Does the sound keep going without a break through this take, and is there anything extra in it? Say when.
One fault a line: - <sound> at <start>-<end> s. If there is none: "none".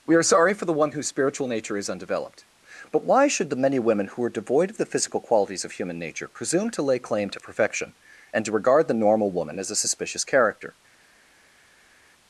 none